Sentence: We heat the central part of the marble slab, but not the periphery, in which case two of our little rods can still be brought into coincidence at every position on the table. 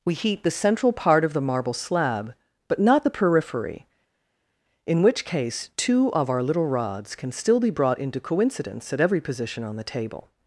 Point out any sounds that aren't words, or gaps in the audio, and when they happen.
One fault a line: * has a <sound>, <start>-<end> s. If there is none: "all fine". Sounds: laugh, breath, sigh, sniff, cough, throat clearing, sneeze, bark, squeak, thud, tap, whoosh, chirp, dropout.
all fine